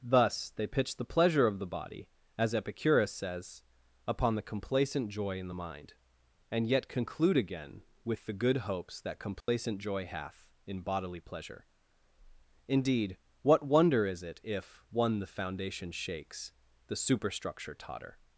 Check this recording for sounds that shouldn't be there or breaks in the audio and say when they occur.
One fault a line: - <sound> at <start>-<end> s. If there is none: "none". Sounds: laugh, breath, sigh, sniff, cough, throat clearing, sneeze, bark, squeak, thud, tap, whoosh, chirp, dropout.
- dropout at 9.4-9.5 s